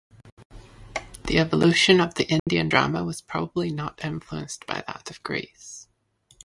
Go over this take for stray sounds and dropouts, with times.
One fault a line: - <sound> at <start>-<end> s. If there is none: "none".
- dropout at 2.4-2.5 s